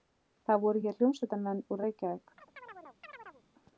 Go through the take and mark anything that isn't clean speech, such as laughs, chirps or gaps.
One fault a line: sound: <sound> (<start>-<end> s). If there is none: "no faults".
sound: chirp (2.4-3.4 s)